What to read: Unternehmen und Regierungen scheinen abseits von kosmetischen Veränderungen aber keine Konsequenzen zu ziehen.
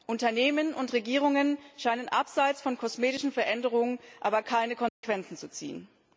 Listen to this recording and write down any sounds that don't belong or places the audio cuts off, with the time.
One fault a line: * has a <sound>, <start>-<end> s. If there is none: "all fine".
* has a dropout, 4.9-5.0 s